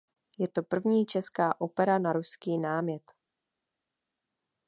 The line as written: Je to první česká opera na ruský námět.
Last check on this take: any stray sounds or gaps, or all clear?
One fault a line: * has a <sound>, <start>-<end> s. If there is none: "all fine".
all fine